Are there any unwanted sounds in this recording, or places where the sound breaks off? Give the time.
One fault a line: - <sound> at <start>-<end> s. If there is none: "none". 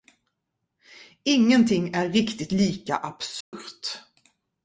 - dropout at 3.4-3.5 s